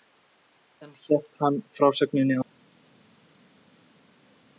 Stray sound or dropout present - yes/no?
no